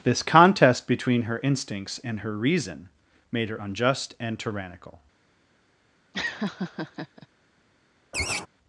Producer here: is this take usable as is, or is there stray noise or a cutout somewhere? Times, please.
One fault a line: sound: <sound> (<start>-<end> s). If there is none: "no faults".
sound: laugh (6.1-7.3 s)
sound: laugh (8.1-8.5 s)